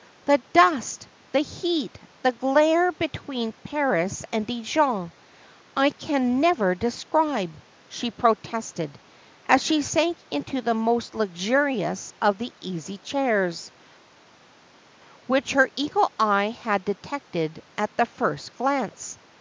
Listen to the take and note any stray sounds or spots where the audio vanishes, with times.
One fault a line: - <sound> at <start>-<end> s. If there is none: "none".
none